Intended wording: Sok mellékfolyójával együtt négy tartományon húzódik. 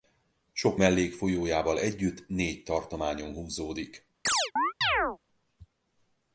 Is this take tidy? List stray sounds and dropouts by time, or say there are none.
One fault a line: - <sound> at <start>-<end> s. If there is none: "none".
- chirp at 4.3-5.2 s